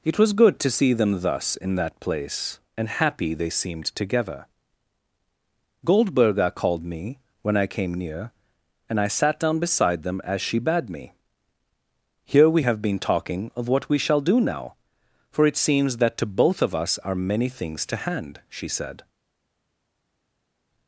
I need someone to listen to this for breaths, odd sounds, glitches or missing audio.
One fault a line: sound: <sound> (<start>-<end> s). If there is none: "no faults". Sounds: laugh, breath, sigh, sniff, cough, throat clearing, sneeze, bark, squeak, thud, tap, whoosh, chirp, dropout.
no faults